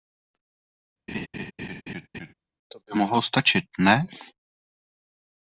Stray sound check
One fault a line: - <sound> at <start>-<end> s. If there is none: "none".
- laugh at 1.1-2.3 s